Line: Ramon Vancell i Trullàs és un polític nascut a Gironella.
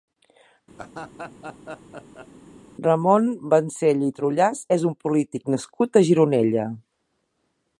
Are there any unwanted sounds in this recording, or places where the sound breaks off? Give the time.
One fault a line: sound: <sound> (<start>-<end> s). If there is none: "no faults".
sound: laugh (0.8-2.3 s)